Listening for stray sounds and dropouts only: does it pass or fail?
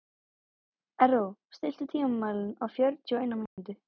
fail